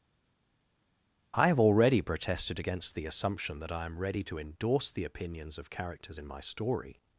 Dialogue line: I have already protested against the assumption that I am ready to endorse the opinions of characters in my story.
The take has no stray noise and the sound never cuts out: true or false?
true